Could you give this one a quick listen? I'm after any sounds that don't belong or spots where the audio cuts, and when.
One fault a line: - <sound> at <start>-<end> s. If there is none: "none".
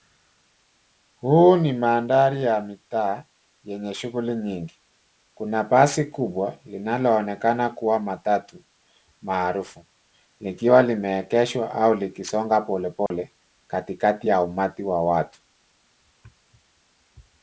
- dropout at 13.1-13.1 s